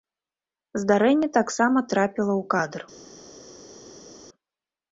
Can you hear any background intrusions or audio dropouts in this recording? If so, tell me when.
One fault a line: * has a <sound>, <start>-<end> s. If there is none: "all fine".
all fine